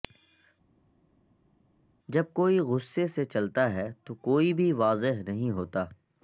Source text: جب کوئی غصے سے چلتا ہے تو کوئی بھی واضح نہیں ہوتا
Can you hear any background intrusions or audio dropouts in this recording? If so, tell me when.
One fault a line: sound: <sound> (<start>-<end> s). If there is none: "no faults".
no faults